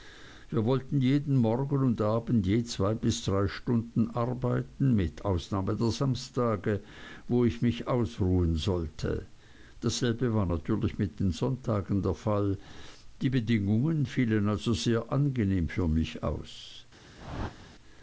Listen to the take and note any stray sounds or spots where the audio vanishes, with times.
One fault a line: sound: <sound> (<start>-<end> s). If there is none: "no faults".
sound: whoosh (17.2-17.8 s)